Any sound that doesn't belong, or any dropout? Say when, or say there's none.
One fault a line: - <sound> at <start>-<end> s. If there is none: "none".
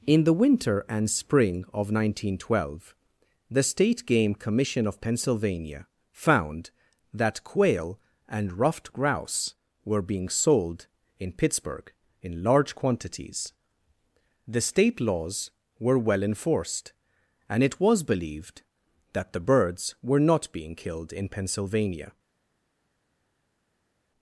none